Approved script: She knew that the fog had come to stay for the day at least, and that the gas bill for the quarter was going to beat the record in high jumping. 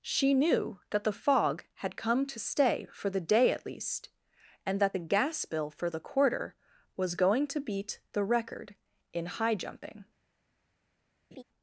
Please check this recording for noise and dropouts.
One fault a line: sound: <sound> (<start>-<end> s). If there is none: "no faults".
sound: laugh (11.3-11.4 s)